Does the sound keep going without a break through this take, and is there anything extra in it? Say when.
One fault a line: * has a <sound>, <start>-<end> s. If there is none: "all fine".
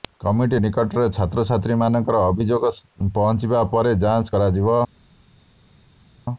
all fine